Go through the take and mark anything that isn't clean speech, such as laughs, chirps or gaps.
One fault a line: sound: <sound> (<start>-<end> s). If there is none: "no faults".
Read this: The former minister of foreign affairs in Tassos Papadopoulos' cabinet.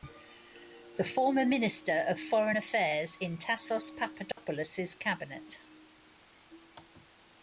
sound: dropout (4.3-4.4 s)